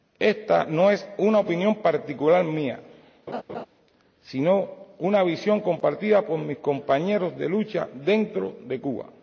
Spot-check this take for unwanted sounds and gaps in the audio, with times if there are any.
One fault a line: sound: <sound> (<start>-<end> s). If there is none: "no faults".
sound: laugh (3.3-3.7 s)